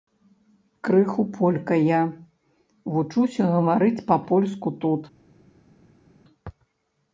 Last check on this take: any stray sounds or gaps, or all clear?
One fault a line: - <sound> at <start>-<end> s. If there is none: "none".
none